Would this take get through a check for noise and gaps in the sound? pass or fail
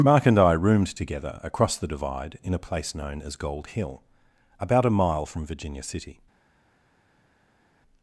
pass